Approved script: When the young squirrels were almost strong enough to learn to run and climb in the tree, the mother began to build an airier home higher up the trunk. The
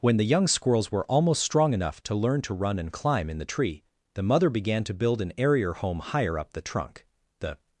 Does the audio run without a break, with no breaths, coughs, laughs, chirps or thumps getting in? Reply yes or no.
yes